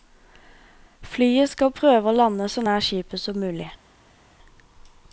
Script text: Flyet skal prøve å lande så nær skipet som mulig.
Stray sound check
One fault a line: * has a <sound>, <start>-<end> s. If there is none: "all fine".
all fine